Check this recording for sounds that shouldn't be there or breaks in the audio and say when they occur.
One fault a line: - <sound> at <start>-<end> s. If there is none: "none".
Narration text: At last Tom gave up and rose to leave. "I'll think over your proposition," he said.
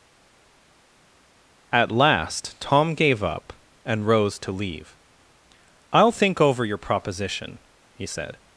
none